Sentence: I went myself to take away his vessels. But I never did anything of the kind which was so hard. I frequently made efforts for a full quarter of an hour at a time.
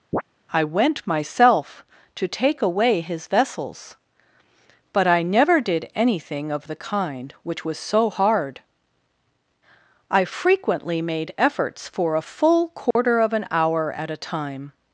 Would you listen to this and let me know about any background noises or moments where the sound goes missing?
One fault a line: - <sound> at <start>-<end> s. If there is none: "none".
- chirp at 0.1-0.2 s
- dropout at 12.9-13.0 s